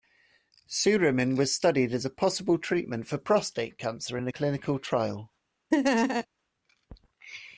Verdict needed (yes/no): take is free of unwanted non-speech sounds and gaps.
no